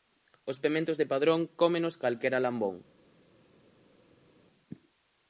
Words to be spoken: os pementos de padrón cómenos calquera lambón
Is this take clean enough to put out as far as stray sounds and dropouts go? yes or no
yes